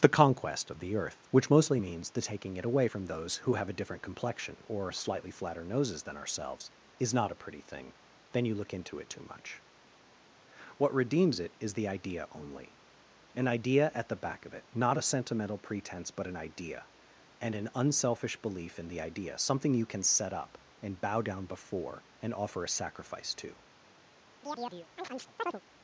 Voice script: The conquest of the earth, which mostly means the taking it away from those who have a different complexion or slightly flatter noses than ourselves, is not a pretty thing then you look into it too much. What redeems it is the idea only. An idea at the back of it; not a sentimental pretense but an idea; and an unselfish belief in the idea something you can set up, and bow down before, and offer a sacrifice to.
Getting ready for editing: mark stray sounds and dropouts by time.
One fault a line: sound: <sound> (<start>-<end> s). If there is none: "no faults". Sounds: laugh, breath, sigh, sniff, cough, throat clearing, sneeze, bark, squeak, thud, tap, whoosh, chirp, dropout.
sound: chirp (24.4-25.6 s)